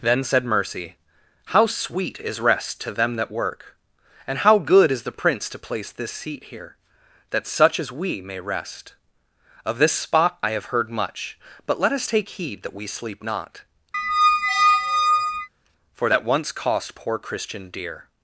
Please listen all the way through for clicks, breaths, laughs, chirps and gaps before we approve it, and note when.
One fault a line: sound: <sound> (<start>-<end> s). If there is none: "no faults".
sound: squeak (13.9-15.5 s)